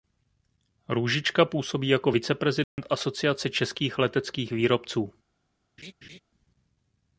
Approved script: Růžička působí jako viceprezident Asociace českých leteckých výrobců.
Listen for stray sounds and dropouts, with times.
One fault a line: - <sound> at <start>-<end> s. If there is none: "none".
- dropout at 2.6-2.8 s
- laugh at 5.8-6.2 s